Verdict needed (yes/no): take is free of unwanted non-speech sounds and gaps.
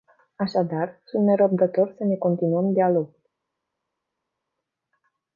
yes